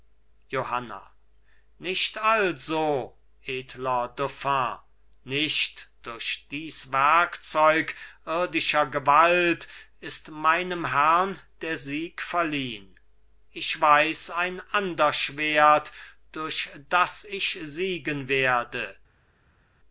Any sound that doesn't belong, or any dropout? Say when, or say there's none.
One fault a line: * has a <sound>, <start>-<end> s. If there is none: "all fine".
all fine